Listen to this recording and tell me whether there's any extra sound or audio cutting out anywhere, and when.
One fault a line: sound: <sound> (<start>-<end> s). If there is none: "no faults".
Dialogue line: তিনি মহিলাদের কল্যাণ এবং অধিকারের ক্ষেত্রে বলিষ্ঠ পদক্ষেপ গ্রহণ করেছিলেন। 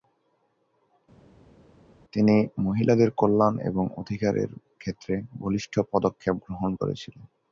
no faults